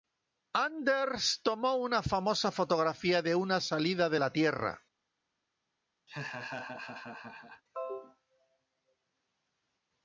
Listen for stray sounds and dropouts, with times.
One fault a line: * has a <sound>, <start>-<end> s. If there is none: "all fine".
* has a laugh, 6.1-7.6 s